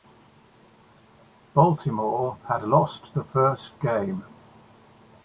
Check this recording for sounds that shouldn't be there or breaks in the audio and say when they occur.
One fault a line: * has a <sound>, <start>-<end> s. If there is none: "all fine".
all fine